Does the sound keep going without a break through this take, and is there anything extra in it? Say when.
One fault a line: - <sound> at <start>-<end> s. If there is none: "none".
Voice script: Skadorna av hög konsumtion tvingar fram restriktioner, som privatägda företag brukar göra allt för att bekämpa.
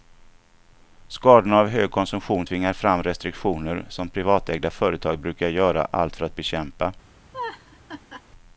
- laugh at 7.3-8.2 s